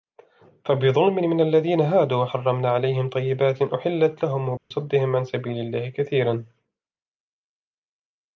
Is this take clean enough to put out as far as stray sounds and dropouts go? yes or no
no